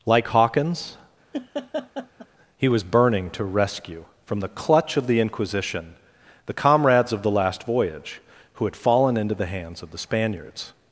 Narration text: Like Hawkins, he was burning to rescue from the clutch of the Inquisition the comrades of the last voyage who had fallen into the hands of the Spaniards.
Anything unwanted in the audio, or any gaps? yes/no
yes